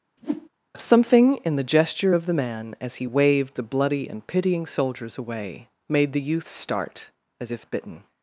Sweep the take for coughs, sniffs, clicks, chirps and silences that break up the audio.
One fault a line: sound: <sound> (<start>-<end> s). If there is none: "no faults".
sound: whoosh (0.2-0.5 s)